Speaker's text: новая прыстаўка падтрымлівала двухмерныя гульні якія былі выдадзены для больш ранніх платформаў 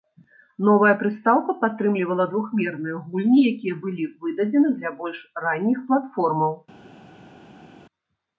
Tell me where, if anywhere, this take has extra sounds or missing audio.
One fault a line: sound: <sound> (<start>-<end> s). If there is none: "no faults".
no faults